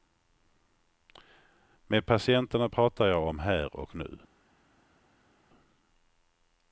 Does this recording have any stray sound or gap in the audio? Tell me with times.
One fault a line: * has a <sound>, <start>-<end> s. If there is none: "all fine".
all fine